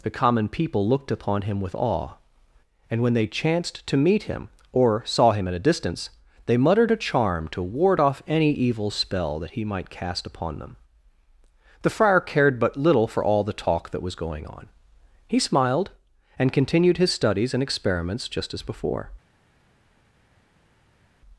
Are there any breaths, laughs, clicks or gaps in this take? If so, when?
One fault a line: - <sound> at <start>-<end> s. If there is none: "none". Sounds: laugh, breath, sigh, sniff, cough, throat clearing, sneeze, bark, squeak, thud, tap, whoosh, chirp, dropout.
none